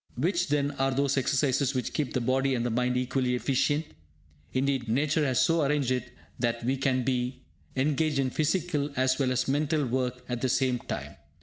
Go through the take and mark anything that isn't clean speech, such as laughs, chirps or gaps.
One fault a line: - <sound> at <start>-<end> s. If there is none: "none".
none